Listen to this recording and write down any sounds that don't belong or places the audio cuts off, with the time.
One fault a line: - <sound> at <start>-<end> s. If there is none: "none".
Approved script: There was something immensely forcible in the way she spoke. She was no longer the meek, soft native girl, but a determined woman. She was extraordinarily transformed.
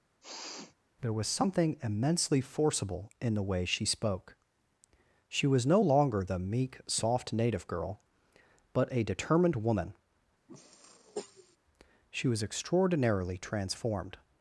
- sniff at 0.2-0.7 s
- sniff at 10.5-11.6 s